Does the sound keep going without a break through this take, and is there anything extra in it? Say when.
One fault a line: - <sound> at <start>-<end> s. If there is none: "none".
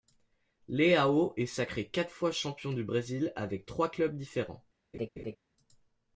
- laugh at 4.9-5.4 s